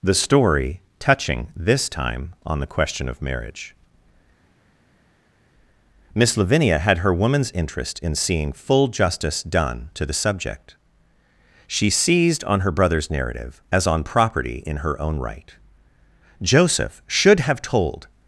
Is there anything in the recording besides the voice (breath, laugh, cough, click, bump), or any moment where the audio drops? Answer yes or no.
no